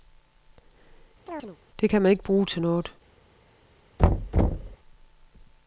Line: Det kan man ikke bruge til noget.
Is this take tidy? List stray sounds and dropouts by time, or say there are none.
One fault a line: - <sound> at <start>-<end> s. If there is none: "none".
- chirp at 1.3-1.6 s
- thud at 4.0-4.8 s